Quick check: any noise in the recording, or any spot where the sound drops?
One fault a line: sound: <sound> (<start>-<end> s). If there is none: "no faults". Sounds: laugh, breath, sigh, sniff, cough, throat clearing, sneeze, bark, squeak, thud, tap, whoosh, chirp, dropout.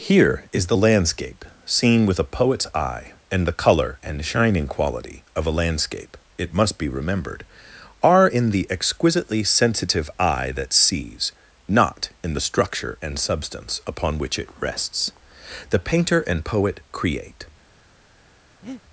sound: breath (18.6-18.8 s)